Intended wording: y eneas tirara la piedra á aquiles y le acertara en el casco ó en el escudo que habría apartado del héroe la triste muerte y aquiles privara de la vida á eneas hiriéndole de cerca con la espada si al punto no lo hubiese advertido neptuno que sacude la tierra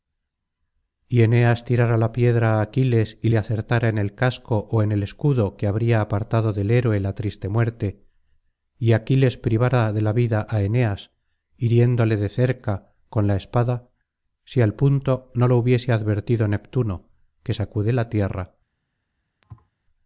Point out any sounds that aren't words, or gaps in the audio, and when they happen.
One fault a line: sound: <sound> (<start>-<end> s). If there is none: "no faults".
sound: thud (19.4-19.7 s)